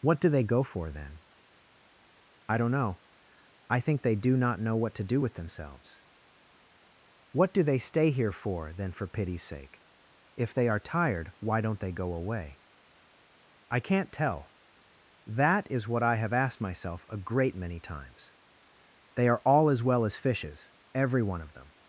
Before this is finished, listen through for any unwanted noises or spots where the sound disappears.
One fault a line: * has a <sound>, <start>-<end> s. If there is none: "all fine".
all fine